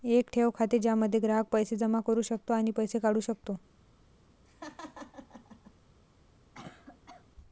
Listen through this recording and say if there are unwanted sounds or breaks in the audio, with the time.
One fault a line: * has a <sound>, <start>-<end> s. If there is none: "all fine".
* has a laugh, 4.4-5.7 s
* has a cough, 6.5-7.3 s